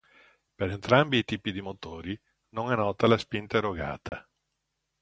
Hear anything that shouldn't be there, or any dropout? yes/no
yes